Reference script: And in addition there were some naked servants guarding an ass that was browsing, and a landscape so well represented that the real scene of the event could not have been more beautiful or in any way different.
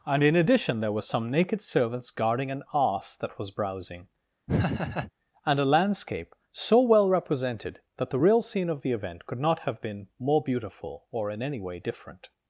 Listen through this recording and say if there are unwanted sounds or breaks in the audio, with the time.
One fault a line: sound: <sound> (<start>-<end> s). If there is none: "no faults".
sound: laugh (4.5-5.1 s)